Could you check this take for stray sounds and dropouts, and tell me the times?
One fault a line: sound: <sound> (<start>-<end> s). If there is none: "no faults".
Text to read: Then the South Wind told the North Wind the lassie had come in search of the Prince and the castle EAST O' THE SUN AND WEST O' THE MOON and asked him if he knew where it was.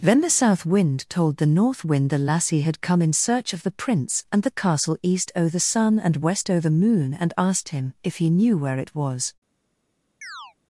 sound: chirp (10.2-10.5 s)